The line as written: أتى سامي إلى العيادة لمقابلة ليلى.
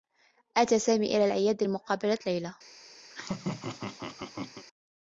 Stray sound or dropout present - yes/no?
yes